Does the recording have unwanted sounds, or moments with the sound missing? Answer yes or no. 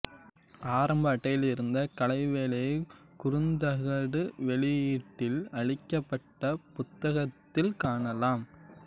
no